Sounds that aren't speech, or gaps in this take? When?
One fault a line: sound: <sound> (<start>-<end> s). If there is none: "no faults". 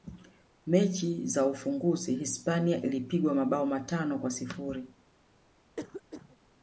sound: cough (5.8-6.4 s)